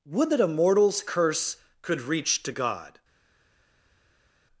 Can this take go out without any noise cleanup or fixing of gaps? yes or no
yes